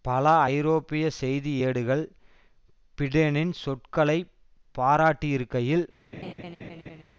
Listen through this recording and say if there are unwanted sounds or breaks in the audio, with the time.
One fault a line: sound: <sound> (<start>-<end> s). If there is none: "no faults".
sound: laugh (6.1-7.0 s)